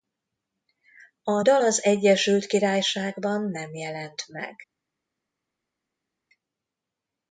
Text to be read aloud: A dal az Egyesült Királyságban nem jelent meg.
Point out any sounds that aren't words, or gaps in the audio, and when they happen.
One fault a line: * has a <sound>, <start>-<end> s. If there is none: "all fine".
all fine